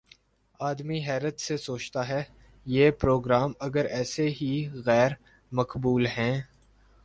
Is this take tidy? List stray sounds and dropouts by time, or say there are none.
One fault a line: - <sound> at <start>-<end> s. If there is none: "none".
none